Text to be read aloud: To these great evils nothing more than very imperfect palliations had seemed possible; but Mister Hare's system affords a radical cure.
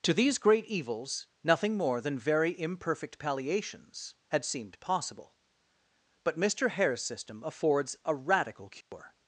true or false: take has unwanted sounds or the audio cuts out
true